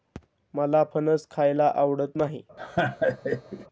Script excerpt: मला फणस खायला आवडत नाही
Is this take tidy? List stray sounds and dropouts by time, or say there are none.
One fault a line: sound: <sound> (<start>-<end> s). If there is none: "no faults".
sound: laugh (2.6-3.7 s)